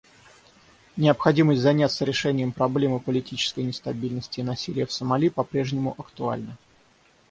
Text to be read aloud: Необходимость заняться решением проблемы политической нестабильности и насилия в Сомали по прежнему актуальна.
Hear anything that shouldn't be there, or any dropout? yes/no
no